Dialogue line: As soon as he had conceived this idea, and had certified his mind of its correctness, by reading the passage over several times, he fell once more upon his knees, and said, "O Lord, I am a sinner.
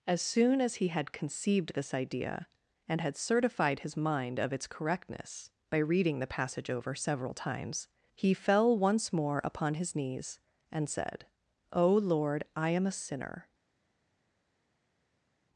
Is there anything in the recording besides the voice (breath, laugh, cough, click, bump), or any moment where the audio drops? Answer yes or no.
no